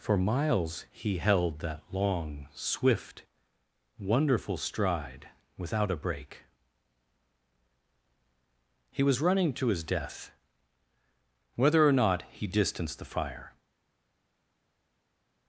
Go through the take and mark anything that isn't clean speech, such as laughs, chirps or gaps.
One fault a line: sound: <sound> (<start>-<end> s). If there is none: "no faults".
no faults